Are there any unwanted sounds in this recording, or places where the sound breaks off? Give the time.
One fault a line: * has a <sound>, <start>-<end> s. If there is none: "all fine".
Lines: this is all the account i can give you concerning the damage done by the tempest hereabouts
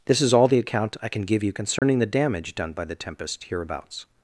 * has a dropout, 1.8-1.8 s